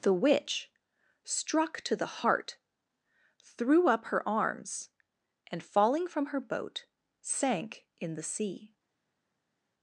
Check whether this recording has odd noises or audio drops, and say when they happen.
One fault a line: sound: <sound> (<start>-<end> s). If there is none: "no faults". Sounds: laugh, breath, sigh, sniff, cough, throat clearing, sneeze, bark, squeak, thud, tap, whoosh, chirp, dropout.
no faults